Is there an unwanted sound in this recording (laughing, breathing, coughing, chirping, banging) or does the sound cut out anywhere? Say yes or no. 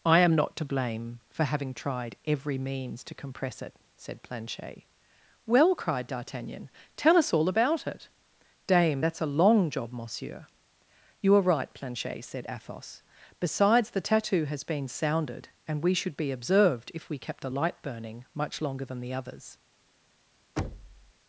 yes